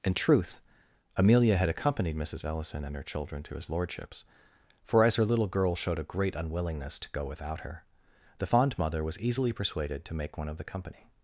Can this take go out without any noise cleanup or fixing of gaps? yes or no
yes